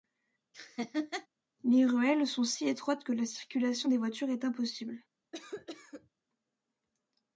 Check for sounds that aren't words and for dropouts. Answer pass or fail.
fail